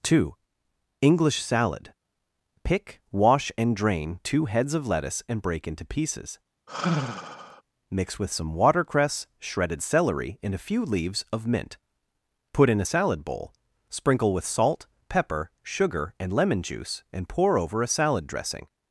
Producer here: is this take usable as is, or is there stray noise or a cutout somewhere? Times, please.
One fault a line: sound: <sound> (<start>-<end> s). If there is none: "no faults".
sound: sigh (6.7-7.6 s)